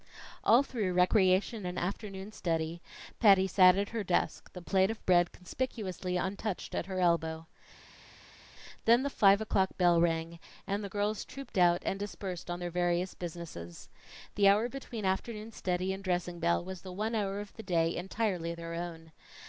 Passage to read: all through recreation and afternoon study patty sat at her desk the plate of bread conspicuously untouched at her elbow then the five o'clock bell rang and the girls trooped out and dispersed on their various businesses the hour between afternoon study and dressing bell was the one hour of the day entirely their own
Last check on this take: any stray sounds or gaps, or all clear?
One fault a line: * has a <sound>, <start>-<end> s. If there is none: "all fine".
all fine